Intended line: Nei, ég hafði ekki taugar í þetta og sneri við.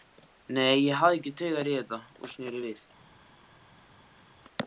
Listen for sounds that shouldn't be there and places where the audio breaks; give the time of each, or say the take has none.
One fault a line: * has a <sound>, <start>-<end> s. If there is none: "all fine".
all fine